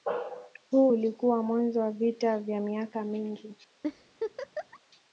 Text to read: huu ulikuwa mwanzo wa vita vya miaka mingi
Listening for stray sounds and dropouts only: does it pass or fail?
fail